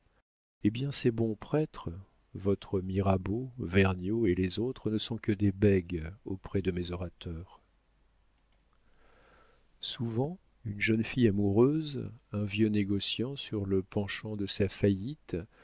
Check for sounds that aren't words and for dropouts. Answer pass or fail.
pass